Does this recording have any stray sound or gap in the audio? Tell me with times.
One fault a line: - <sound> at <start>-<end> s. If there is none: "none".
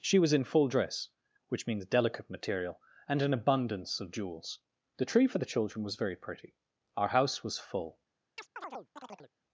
- chirp at 8.4-9.3 s